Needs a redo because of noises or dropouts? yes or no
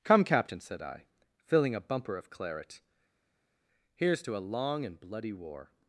no